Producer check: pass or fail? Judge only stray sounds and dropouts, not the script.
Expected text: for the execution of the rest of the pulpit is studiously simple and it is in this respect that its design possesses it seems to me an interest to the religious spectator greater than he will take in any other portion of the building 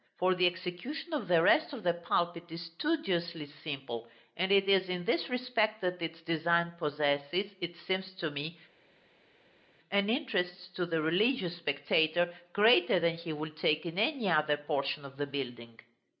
pass